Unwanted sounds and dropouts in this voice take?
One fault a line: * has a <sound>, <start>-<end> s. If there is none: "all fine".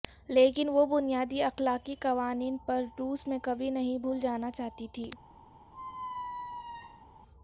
* has a squeak, 5.7-7.1 s